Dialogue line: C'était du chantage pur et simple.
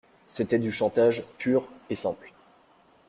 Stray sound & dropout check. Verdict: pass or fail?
pass